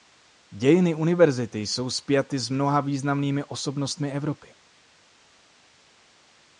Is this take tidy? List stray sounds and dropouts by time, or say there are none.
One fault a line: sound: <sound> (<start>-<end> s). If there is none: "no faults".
no faults